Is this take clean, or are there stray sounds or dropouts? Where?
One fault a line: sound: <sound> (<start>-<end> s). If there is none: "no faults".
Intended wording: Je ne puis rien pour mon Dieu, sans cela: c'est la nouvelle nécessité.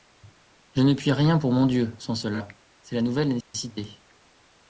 sound: dropout (3.4-3.5 s)